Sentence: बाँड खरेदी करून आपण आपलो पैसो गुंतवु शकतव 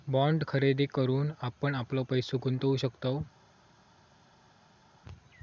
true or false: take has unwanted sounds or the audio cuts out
false